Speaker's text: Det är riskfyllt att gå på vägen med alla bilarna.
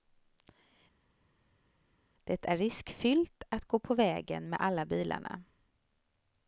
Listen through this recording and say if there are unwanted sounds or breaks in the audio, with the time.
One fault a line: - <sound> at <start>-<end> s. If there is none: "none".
none